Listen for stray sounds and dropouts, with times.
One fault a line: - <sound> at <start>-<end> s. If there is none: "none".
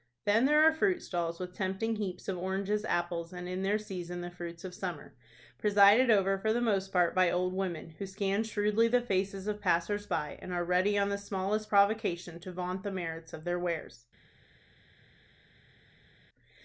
none